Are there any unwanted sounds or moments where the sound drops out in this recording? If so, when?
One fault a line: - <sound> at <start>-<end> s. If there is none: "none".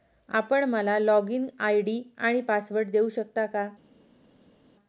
none